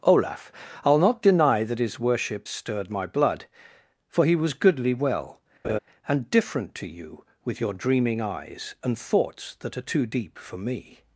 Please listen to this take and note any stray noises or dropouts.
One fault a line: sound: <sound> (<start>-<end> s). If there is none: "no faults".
sound: laugh (5.6-5.8 s)